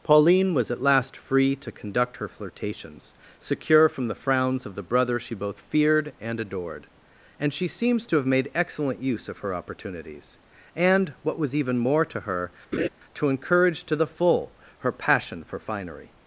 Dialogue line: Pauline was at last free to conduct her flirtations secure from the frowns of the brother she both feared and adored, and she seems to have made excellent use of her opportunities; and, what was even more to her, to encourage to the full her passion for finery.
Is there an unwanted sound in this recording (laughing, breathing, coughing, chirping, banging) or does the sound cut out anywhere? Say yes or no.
yes